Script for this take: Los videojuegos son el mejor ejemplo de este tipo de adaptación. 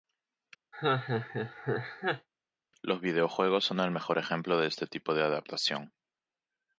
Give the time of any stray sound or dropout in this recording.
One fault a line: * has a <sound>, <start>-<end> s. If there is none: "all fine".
* has a laugh, 0.7-2.3 s